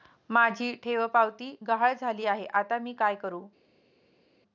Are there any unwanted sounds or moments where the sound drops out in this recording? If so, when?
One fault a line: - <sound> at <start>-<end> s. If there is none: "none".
none